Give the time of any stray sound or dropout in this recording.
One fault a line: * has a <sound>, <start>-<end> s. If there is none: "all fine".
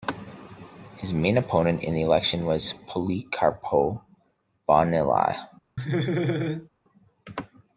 * has a laugh, 5.8-6.7 s